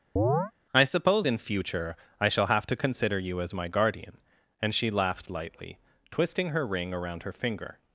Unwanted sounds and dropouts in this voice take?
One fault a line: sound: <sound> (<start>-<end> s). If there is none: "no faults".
sound: chirp (0.2-0.5 s)